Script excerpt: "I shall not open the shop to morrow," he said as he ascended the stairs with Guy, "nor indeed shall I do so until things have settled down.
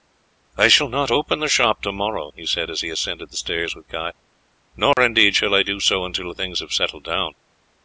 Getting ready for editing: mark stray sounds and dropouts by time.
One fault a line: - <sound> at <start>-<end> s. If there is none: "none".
- dropout at 4.9-5.0 s